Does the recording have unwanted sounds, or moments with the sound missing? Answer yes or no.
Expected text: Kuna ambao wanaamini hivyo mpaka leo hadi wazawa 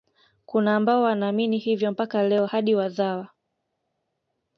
no